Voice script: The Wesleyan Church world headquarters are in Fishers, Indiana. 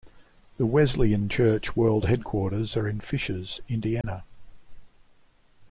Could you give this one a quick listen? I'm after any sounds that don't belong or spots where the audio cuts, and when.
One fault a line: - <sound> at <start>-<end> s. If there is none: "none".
- dropout at 4.0-4.0 s